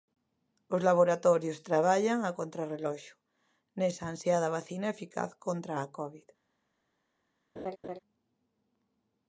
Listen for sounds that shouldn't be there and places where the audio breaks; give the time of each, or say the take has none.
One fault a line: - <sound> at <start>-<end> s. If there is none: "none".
- laugh at 7.6-8.0 s